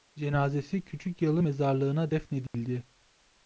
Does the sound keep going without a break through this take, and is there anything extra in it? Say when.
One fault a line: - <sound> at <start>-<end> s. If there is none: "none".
- dropout at 2.5-2.5 s